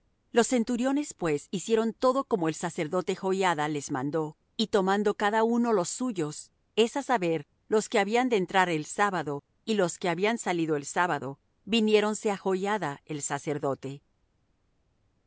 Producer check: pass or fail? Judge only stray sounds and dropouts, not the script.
pass